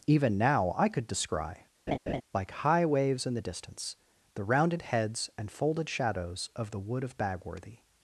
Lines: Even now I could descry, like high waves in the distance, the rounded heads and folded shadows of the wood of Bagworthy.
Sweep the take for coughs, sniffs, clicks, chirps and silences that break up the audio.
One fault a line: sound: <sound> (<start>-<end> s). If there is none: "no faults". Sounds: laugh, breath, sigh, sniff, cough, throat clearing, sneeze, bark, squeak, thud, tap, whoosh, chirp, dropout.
sound: laugh (1.9-2.2 s)